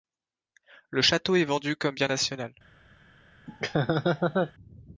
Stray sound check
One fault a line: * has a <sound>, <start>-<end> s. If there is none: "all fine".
* has a laugh, 3.5-4.5 s